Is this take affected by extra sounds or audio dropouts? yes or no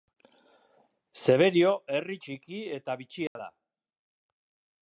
yes